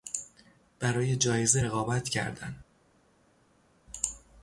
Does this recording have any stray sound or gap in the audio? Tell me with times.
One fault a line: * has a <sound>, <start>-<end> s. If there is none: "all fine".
all fine